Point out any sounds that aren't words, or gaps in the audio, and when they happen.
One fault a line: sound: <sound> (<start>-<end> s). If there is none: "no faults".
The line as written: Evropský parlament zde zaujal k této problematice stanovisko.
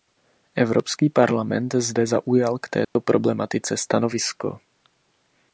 sound: dropout (2.8-3.0 s)